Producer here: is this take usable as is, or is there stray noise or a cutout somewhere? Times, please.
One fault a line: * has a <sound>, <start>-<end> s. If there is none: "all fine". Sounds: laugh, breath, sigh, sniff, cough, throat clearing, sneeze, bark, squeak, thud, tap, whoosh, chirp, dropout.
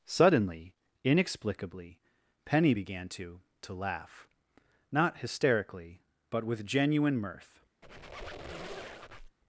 * has a squeak, 7.8-9.4 s